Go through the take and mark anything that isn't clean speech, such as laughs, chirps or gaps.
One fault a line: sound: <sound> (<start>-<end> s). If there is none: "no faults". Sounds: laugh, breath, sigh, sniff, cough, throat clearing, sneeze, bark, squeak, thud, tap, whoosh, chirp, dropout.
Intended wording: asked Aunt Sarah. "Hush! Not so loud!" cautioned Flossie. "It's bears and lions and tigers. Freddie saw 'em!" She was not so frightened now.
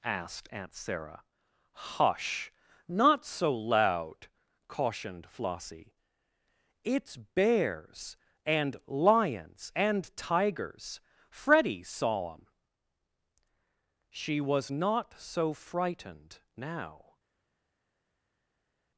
no faults